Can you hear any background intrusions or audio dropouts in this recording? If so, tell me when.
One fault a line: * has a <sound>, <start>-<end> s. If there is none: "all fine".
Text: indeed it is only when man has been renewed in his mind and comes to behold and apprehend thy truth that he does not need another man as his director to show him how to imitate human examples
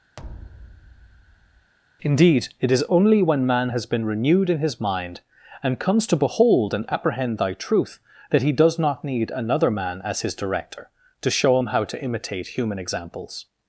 * has a thud, 0.2-1.7 s